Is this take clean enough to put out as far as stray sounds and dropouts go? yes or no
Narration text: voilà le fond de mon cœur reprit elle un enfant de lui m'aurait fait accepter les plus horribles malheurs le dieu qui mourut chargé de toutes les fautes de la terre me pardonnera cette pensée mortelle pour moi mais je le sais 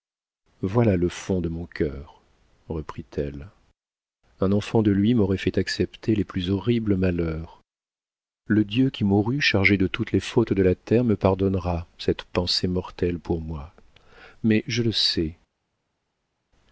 yes